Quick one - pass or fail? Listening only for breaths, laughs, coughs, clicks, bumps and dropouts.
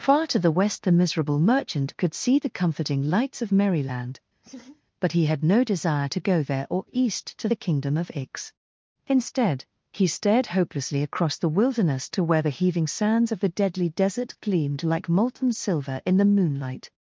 fail